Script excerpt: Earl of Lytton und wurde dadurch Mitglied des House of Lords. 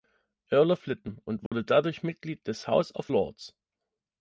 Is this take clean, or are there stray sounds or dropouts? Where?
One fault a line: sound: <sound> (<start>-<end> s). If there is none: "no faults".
sound: dropout (1.5-1.5 s)